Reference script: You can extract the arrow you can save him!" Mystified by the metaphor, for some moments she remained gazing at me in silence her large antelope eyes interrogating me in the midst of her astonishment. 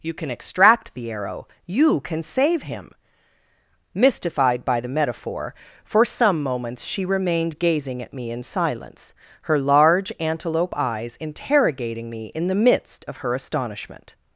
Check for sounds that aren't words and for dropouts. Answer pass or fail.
pass